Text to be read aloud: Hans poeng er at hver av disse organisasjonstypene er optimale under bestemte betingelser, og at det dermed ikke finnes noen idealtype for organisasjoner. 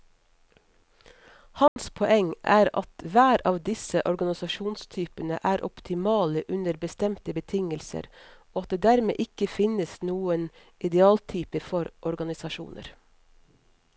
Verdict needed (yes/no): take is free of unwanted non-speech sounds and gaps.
no